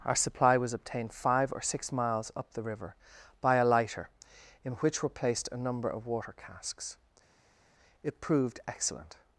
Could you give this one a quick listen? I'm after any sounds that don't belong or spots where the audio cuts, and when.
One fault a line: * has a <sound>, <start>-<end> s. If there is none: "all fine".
all fine